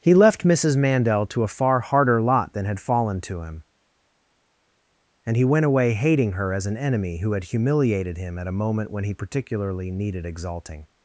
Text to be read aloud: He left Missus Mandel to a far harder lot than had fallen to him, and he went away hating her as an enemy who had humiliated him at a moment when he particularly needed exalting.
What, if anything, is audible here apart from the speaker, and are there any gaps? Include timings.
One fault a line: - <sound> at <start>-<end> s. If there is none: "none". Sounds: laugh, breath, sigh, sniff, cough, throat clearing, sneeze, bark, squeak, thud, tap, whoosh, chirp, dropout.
none